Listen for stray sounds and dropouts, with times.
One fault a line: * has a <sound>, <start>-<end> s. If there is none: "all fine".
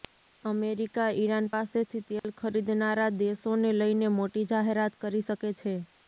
* has a dropout, 2.2-2.2 s